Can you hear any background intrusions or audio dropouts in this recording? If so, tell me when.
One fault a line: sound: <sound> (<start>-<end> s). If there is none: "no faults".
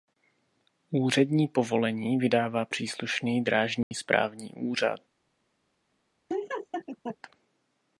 sound: dropout (3.8-3.9 s)
sound: laugh (6.3-7.2 s)